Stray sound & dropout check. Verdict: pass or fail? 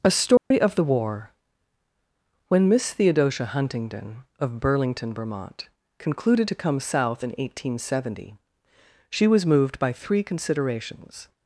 fail